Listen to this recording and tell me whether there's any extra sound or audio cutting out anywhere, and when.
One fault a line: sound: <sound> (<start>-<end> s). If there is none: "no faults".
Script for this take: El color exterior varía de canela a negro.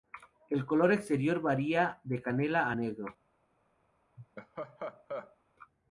sound: laugh (4.2-5.4 s)